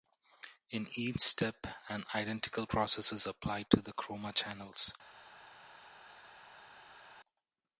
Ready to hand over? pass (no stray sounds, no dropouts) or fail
pass